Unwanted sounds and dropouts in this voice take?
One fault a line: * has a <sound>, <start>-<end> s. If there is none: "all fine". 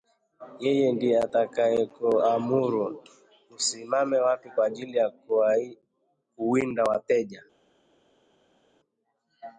all fine